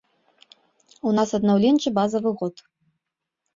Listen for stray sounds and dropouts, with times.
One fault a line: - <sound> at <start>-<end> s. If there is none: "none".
none